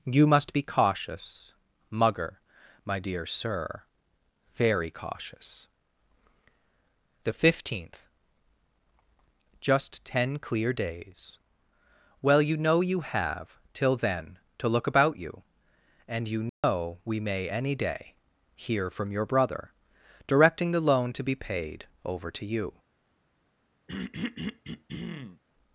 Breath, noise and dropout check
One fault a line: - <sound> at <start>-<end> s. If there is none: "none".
- dropout at 16.5-16.6 s
- throat clearing at 23.9-25.4 s